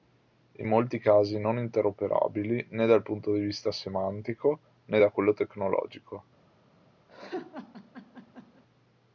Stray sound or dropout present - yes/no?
yes